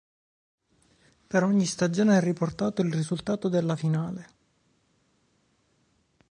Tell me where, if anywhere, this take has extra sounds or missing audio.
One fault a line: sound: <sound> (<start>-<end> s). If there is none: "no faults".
no faults